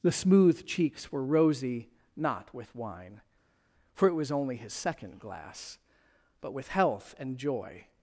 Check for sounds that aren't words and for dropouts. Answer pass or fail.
pass